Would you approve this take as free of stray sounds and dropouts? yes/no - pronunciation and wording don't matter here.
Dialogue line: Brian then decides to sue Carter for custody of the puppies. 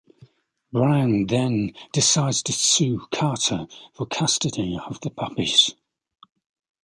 yes